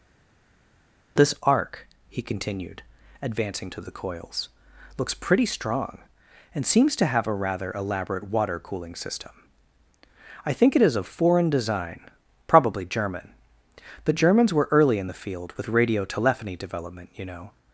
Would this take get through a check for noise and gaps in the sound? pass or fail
pass